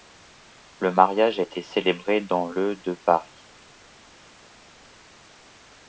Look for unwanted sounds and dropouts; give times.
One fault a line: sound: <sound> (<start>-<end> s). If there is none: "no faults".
no faults